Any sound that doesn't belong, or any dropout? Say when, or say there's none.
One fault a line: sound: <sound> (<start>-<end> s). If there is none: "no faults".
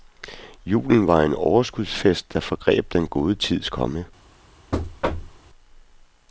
sound: thud (4.7-5.4 s)